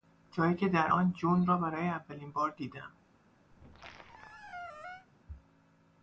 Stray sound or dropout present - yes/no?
yes